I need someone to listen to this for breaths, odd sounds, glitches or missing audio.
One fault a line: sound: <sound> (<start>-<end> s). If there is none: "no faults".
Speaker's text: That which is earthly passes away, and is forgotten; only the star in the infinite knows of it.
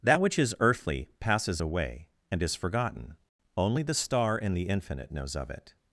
no faults